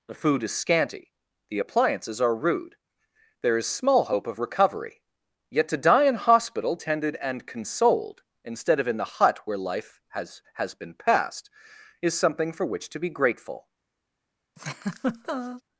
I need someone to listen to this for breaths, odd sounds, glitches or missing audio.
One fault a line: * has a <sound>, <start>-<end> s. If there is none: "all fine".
* has a laugh, 14.6-15.6 s